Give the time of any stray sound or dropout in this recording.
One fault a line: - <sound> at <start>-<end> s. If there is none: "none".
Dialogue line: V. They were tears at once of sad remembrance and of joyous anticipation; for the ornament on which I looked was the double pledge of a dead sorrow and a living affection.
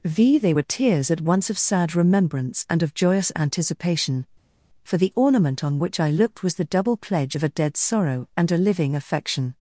none